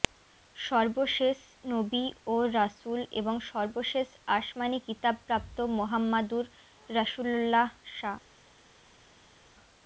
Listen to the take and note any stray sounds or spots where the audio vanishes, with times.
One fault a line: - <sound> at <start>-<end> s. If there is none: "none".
none